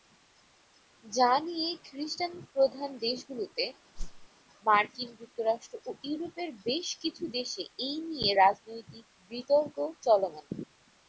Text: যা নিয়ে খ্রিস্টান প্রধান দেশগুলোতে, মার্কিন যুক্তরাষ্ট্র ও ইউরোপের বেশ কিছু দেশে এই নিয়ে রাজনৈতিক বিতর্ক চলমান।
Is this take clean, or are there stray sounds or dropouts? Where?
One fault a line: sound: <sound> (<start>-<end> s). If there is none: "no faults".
sound: whoosh (3.9-4.3 s)